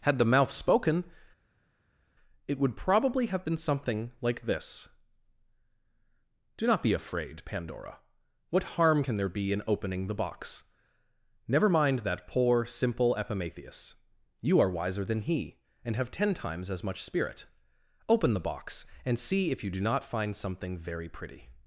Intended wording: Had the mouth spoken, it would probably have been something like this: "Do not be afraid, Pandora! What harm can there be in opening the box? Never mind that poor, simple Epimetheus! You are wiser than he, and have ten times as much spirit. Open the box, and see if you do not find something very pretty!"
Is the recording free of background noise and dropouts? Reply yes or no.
yes